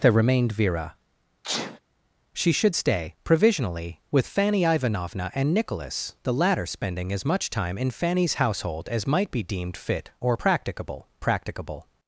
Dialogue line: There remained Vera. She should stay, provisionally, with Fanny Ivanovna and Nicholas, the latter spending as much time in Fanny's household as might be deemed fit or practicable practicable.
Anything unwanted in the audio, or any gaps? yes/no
yes